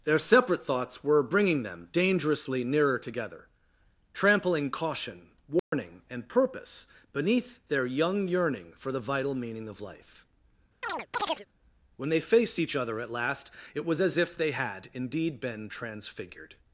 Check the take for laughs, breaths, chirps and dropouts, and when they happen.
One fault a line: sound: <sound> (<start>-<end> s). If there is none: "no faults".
sound: dropout (5.6-5.7 s)
sound: chirp (10.8-11.5 s)